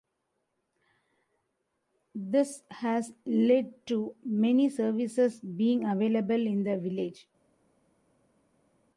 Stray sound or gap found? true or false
false